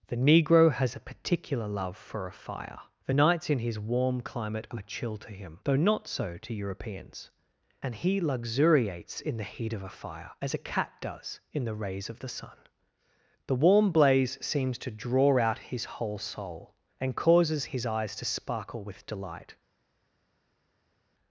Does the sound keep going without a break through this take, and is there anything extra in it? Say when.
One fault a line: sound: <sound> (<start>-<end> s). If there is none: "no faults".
no faults